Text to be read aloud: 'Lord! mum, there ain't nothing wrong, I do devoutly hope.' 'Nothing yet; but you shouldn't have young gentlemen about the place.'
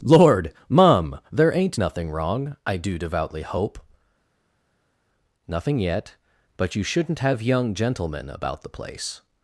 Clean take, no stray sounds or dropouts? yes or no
yes